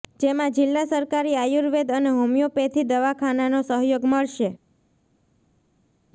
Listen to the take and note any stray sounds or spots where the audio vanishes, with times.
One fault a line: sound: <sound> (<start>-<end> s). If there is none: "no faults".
no faults